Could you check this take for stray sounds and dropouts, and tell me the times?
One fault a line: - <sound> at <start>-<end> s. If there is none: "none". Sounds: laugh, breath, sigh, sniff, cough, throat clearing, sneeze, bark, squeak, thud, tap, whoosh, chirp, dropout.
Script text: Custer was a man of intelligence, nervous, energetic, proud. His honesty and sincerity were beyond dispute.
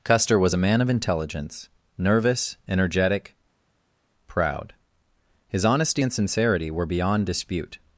none